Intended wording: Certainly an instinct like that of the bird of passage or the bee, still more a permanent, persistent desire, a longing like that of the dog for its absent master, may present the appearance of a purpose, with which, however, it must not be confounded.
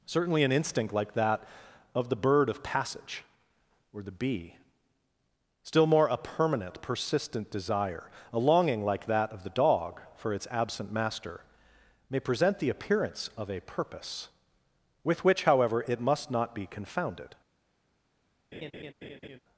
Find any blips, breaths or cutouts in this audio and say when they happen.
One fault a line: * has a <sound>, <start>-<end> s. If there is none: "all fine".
* has a laugh, 18.5-19.4 s